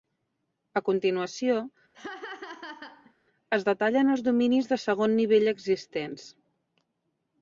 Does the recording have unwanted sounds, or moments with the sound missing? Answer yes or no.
yes